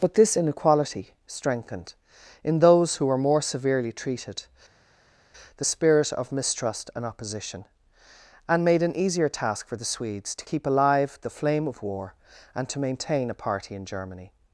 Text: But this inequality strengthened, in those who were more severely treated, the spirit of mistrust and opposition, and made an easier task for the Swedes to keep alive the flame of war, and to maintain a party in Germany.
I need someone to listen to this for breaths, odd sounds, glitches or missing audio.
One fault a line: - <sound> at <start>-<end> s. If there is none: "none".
none